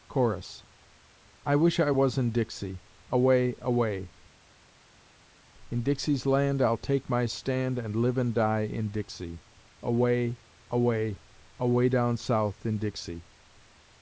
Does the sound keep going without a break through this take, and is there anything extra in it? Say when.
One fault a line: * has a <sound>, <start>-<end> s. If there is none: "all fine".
all fine